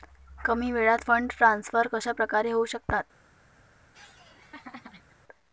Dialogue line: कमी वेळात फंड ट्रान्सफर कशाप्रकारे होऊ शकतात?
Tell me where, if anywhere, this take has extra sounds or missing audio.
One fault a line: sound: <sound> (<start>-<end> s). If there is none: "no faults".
sound: laugh (3.9-5.2 s)